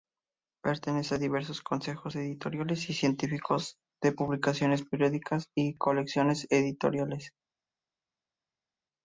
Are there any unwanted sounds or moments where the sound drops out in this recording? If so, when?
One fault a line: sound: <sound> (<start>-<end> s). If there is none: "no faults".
no faults